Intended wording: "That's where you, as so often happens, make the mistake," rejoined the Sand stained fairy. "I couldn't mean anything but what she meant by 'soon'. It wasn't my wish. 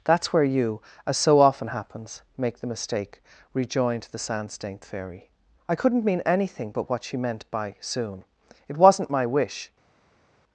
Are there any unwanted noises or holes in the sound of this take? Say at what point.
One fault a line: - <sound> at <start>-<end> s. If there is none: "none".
none